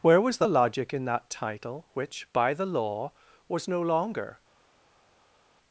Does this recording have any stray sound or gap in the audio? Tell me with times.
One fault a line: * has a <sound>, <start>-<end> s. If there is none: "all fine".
all fine